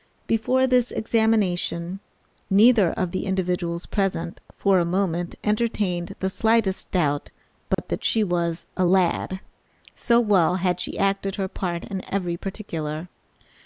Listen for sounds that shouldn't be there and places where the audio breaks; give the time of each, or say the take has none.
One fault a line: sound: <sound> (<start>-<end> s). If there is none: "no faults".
sound: dropout (7.7-7.8 s)